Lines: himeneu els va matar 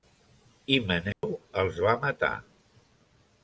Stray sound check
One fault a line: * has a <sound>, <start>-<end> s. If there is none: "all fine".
* has a dropout, 1.1-1.2 s